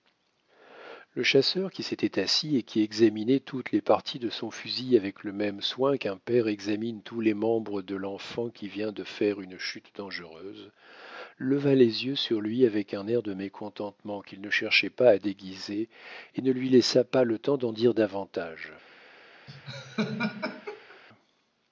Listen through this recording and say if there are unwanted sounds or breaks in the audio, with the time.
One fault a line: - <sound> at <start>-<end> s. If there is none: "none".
- laugh at 19.5-21.0 s